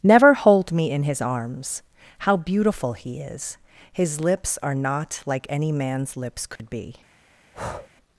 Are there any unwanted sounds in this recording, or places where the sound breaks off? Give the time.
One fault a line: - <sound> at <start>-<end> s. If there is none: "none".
- dropout at 6.6-6.6 s
- breath at 7.5-7.9 s